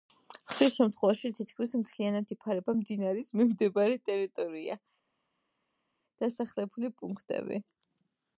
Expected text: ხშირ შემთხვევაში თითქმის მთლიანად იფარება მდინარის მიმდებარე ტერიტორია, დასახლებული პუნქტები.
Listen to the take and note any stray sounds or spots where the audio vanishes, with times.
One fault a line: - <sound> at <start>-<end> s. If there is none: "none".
none